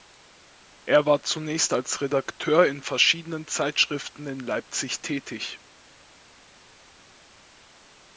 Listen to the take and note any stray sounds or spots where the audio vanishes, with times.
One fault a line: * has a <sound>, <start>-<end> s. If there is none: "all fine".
all fine